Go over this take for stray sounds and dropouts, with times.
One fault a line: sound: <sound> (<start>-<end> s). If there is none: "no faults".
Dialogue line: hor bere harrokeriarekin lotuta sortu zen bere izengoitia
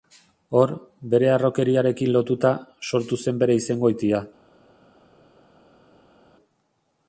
no faults